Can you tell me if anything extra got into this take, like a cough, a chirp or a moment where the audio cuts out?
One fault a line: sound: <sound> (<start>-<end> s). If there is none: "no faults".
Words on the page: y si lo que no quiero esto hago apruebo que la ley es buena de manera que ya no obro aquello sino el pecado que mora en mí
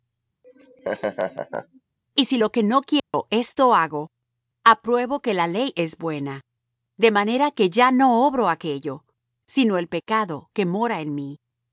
sound: laugh (0.4-1.8 s)
sound: dropout (3.0-3.1 s)